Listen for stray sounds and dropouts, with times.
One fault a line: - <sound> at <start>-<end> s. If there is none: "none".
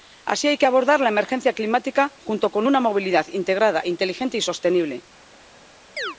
- chirp at 6.0-6.2 s